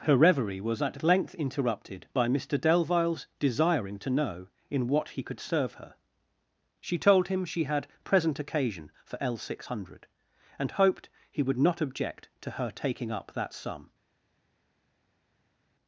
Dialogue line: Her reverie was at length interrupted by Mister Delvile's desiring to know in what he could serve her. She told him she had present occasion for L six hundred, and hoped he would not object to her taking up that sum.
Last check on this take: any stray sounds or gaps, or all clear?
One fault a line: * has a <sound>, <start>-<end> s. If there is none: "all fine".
all fine